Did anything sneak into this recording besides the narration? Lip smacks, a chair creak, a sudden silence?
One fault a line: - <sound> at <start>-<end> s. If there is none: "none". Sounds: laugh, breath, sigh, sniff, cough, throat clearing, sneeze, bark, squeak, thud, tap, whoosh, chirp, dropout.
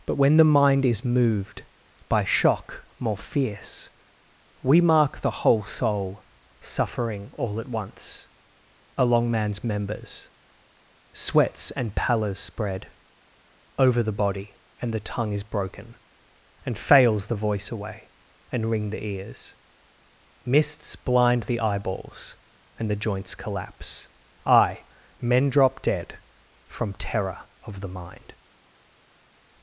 none